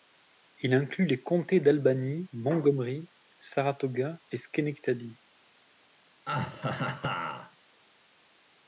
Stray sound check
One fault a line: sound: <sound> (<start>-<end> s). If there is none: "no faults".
sound: laugh (6.3-7.6 s)